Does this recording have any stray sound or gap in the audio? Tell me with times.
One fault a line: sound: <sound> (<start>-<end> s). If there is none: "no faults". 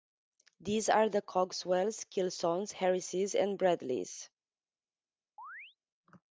sound: chirp (5.4-5.8 s)